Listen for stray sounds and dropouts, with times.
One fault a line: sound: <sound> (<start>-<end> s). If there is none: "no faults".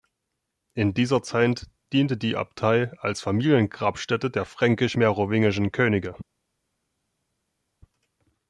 no faults